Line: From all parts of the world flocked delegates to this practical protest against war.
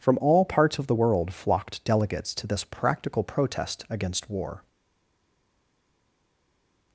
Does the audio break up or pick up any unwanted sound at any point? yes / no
no